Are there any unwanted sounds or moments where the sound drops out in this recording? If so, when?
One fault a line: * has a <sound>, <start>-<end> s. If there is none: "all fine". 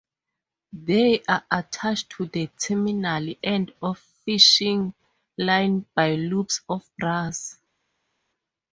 all fine